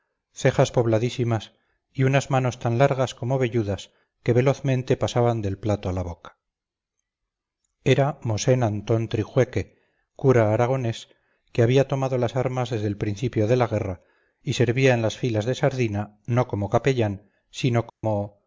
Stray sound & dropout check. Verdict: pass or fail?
fail